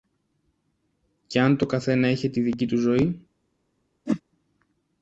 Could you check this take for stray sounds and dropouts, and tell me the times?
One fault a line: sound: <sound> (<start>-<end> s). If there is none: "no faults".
sound: whoosh (4.1-4.2 s)